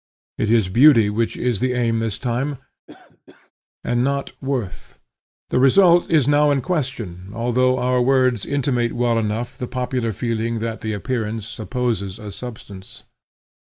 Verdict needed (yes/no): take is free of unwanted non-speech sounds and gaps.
no